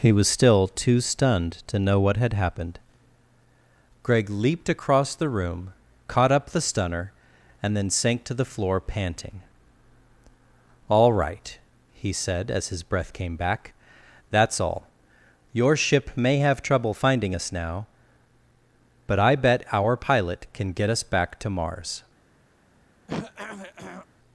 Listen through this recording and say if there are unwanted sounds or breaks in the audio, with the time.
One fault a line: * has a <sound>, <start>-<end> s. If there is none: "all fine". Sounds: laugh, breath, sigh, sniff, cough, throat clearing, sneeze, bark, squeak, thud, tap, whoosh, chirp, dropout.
* has a throat clearing, 23.1-24.1 s